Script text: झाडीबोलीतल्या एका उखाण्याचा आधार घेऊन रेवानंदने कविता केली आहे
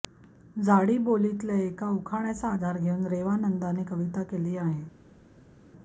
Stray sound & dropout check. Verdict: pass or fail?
pass